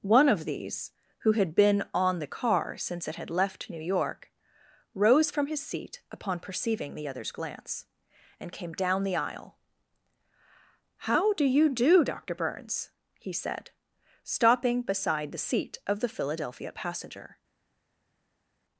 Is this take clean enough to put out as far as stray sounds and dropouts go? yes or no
yes